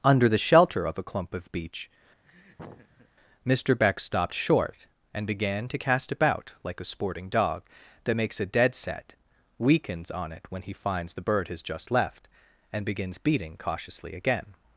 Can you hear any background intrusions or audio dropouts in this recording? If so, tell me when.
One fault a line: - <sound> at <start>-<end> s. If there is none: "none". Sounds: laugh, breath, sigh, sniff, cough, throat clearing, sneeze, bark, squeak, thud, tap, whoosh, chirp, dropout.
- laugh at 2.2-3.1 s